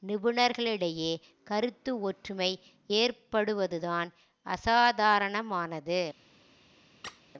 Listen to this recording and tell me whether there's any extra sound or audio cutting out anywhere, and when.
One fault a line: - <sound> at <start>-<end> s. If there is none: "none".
- squeak at 7.0-7.2 s